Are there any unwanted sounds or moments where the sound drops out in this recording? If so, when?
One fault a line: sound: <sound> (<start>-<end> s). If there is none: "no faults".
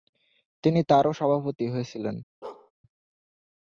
sound: bark (2.4-2.7 s)